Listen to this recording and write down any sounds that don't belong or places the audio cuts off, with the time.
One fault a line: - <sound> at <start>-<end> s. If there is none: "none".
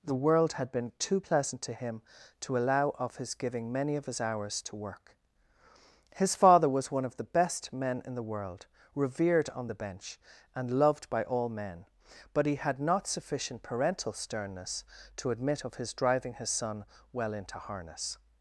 none